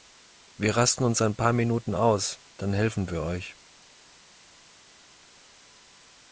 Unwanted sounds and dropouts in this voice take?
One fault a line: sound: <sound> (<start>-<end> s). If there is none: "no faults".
no faults